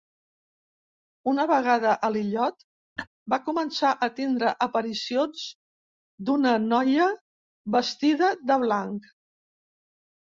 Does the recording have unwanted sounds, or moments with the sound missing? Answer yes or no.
yes